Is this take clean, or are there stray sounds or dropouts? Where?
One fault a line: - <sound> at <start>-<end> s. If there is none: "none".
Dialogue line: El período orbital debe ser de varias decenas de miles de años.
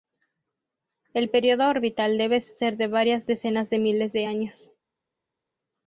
none